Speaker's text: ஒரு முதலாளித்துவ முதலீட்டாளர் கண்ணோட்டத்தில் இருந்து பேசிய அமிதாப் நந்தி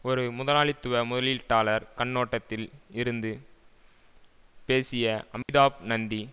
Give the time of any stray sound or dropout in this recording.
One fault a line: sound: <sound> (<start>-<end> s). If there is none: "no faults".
sound: dropout (5.4-5.5 s)